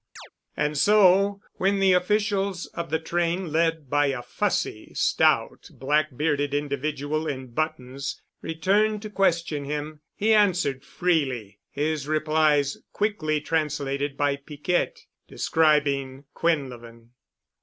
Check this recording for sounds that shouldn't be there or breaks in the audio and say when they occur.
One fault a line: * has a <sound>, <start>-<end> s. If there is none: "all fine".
* has a chirp, 0.2-0.3 s